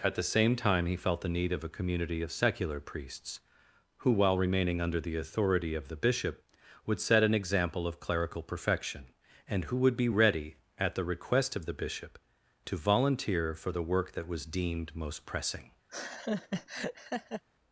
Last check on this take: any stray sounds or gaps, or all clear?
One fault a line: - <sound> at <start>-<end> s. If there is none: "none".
- laugh at 15.9-17.4 s